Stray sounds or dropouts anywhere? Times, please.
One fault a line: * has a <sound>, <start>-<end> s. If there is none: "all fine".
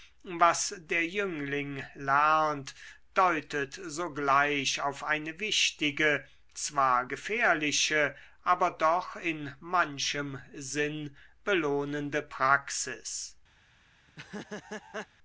* has a laugh, 14.1-15.1 s